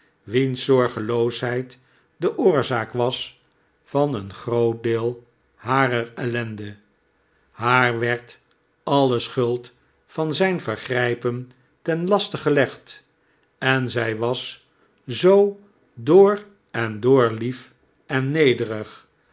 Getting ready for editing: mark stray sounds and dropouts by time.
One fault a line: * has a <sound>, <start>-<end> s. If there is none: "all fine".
all fine